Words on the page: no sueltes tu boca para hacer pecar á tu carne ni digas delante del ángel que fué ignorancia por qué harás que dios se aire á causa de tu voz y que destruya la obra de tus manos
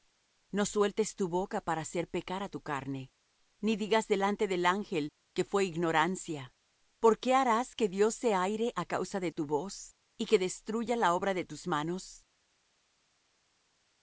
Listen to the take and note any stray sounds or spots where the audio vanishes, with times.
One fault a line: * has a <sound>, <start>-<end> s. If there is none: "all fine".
all fine